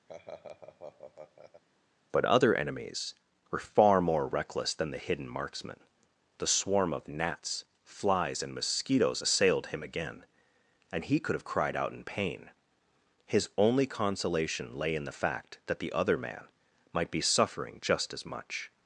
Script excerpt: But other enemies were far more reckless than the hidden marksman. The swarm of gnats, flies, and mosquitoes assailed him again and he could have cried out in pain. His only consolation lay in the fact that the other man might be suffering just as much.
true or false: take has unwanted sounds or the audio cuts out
true